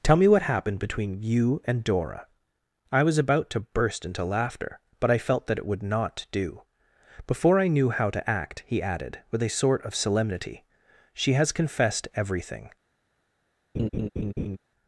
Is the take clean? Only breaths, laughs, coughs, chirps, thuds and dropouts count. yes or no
no